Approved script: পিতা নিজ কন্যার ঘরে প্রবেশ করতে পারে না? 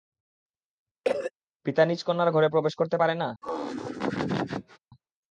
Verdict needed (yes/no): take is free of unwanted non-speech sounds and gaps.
no